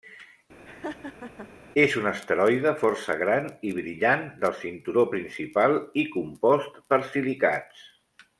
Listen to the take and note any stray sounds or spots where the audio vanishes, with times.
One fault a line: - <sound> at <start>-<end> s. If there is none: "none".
- laugh at 0.6-1.5 s